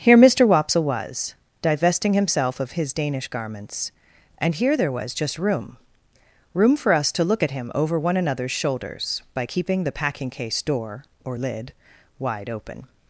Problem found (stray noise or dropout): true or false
false